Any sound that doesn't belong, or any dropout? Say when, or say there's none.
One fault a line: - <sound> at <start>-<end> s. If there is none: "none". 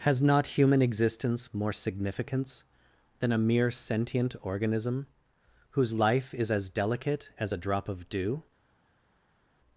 none